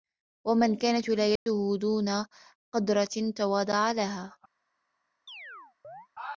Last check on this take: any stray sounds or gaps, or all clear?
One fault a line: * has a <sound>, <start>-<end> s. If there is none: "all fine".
* has a dropout, 1.4-1.5 s
* has a chirp, 5.3-6.1 s